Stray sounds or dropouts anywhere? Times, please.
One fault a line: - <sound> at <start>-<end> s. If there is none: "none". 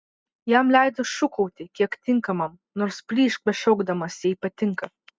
none